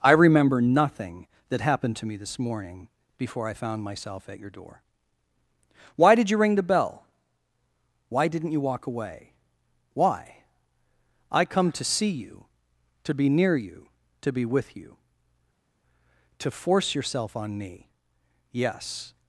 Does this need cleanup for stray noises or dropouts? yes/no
no